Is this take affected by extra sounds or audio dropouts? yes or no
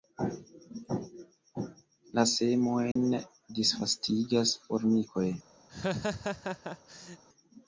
yes